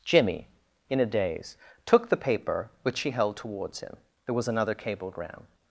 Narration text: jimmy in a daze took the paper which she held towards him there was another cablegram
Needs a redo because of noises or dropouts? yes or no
no